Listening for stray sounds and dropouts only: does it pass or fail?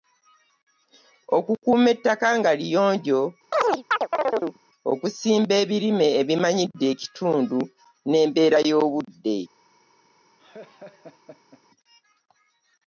fail